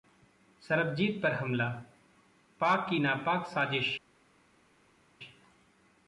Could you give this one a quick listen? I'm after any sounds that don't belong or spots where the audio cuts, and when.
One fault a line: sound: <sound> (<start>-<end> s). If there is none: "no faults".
no faults